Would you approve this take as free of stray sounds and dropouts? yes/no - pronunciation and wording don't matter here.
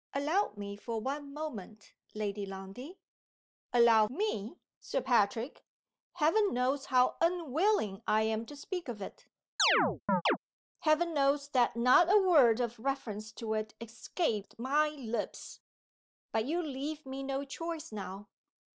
no